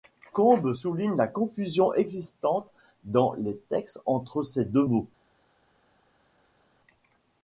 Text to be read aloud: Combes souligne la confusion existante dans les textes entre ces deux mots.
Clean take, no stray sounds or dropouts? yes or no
yes